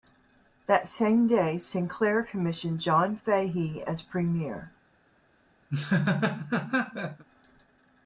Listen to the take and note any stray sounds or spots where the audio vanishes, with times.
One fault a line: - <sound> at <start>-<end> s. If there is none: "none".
- laugh at 5.7-7.2 s